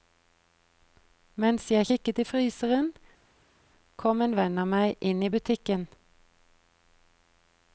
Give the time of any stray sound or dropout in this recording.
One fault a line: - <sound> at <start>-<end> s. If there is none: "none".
none